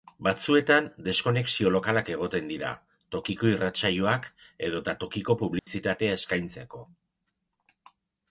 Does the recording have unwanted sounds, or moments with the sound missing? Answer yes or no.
yes